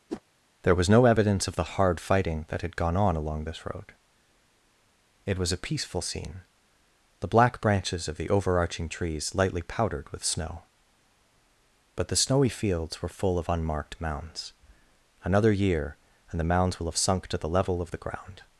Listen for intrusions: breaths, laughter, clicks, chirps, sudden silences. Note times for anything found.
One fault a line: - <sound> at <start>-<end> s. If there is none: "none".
- whoosh at 0.1-0.2 s